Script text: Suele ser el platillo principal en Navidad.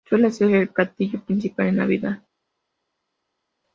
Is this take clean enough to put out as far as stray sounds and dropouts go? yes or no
yes